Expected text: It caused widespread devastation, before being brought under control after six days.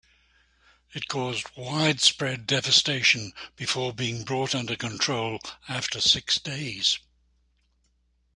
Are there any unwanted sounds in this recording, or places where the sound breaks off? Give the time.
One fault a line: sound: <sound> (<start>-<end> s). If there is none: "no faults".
no faults